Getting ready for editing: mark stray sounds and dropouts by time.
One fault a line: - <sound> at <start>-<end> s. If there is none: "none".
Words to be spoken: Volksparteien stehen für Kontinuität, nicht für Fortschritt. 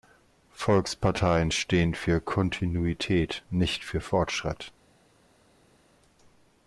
none